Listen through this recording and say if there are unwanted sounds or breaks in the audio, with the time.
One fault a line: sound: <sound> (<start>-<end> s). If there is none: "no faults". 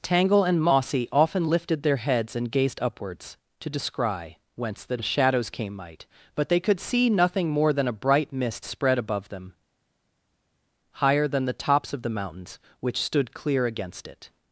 no faults